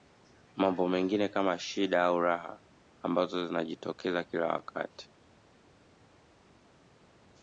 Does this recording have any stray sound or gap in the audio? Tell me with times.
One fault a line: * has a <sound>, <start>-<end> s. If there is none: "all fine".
all fine